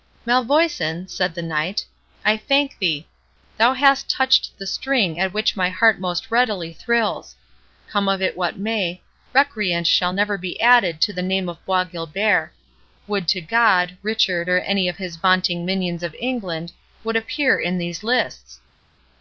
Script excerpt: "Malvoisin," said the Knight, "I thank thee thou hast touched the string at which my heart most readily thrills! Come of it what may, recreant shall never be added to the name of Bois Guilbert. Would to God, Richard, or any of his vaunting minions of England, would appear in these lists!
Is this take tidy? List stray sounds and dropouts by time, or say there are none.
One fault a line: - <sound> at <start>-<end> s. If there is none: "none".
none